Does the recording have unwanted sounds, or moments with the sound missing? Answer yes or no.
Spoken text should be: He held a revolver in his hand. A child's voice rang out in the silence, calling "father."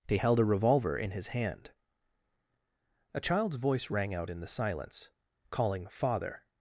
no